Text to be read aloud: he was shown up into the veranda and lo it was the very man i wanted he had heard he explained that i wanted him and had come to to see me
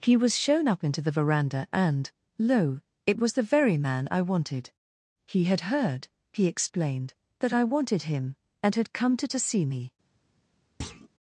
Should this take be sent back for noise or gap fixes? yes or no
yes